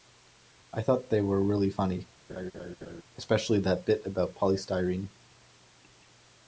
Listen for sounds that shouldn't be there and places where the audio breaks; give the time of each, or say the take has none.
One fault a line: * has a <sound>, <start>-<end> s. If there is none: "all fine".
* has a laugh, 2.3-3.0 s